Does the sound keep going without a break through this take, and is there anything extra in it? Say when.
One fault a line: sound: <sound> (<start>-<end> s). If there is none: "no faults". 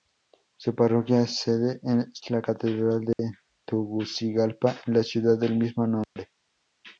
sound: dropout (3.1-3.2 s)
sound: dropout (6.0-6.2 s)